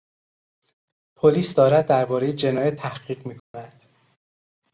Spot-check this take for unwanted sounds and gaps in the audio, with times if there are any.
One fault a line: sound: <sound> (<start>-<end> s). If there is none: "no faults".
sound: dropout (3.4-3.5 s)